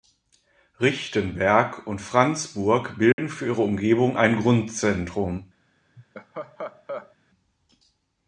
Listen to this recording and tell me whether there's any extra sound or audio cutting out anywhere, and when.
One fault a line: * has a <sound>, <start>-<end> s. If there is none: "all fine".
* has a dropout, 3.1-3.2 s
* has a laugh, 6.0-7.2 s